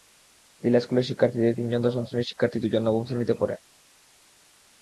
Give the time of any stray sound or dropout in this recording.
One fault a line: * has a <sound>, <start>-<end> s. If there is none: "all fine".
all fine